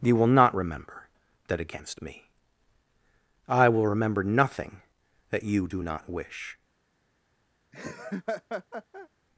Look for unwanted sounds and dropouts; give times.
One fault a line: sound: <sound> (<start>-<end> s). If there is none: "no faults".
sound: laugh (7.7-9.1 s)